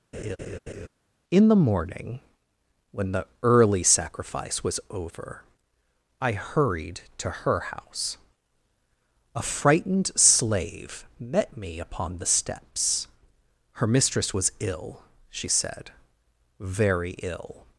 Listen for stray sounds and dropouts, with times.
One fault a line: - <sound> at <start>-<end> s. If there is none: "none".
- laugh at 0.1-0.9 s